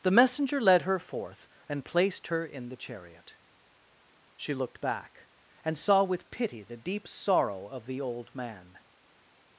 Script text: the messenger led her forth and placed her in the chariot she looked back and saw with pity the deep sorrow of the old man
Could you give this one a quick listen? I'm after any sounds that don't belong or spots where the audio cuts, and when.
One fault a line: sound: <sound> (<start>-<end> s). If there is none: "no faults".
no faults